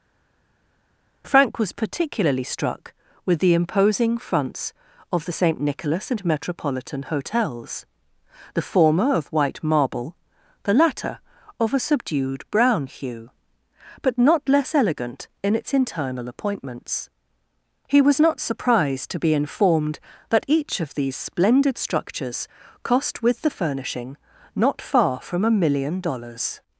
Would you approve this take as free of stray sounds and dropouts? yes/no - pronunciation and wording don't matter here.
yes